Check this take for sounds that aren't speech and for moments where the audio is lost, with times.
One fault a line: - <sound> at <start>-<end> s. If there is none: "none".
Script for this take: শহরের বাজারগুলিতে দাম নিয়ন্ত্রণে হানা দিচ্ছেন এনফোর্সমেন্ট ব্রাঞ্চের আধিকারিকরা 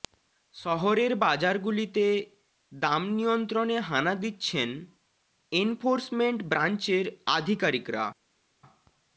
none